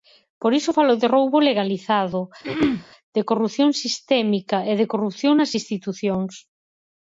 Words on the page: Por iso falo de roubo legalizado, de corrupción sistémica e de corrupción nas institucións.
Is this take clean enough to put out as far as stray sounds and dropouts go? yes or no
no